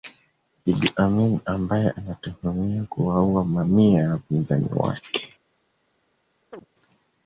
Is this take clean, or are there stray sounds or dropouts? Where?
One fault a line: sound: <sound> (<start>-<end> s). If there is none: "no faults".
sound: chirp (6.5-6.7 s)